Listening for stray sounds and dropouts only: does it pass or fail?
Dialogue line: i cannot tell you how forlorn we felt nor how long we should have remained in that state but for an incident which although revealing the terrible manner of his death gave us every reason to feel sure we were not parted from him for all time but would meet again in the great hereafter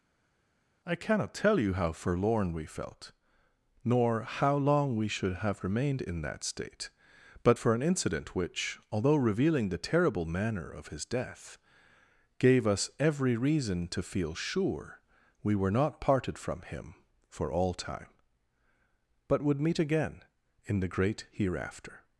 pass